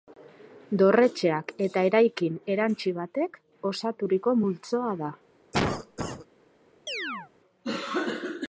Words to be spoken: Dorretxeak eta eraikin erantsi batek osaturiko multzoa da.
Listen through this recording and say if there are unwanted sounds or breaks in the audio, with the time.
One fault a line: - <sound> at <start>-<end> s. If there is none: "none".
- cough at 5.5-6.3 s
- chirp at 6.9-7.3 s